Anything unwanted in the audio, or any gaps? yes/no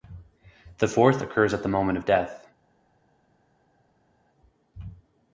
no